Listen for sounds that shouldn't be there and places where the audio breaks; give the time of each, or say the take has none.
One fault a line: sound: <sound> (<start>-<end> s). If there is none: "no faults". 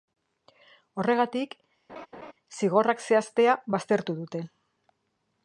sound: laugh (1.9-2.3 s)